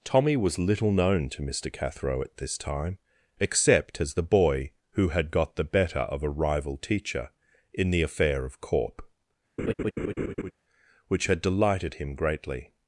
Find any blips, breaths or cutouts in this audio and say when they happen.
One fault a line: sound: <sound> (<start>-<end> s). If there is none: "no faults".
sound: laugh (9.6-10.5 s)